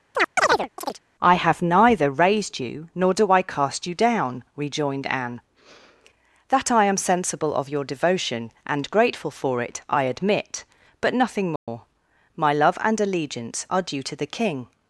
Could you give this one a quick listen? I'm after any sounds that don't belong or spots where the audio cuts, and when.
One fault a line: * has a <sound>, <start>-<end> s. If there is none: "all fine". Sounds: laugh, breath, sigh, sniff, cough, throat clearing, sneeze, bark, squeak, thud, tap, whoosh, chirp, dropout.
* has a chirp, 0.1-1.0 s
* has a dropout, 11.6-11.7 s